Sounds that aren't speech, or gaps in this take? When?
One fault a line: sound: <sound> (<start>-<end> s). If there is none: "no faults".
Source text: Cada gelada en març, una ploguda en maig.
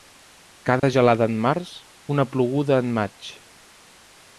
sound: dropout (0.8-0.8 s)